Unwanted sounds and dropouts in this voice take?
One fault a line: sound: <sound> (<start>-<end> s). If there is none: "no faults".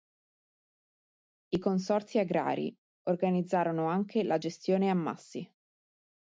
no faults